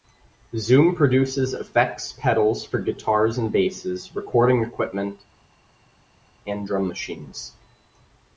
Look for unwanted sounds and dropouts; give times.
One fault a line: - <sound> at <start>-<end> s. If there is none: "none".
none